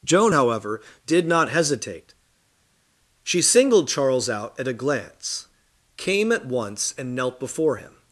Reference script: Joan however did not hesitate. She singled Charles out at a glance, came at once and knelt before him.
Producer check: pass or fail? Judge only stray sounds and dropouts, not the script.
pass